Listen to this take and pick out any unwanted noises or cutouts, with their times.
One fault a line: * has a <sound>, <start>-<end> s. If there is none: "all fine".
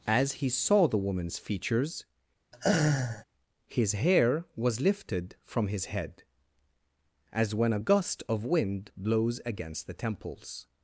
* has a laugh, 2.5-3.2 s